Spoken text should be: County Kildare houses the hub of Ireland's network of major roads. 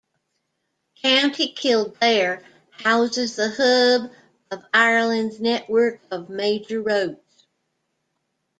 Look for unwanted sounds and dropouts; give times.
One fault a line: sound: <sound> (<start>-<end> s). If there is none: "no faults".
no faults